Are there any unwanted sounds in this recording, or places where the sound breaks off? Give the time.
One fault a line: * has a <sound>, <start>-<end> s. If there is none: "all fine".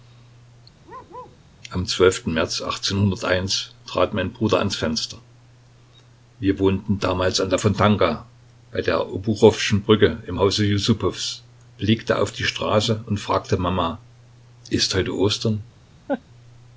* has a bark, 0.8-1.4 s
* has a laugh, 16.1-16.2 s